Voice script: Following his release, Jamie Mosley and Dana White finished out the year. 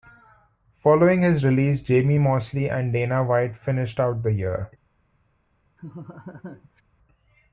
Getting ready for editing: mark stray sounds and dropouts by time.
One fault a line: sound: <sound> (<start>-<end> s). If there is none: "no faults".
sound: laugh (5.8-6.8 s)